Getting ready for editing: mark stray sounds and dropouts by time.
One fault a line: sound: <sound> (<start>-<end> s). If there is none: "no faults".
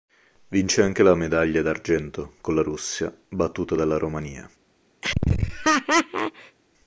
sound: laugh (5.0-6.6 s)